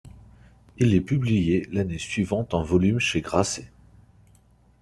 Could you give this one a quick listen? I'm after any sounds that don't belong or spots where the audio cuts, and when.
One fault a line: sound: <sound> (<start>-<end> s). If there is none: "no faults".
no faults